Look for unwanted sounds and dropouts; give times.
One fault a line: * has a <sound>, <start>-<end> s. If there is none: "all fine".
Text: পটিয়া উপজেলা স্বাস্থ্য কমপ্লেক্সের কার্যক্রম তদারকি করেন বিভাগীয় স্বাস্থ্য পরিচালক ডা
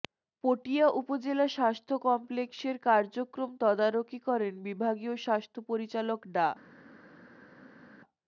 all fine